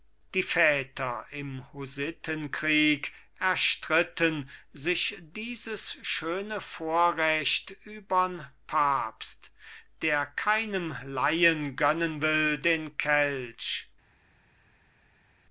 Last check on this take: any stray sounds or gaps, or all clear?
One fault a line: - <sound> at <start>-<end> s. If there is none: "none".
none